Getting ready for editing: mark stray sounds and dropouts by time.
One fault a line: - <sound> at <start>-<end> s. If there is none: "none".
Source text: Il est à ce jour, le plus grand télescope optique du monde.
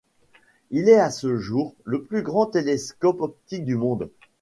none